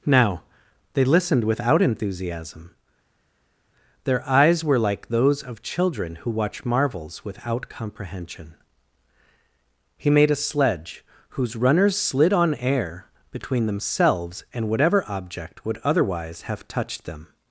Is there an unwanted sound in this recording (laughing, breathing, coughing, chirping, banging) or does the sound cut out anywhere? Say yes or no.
no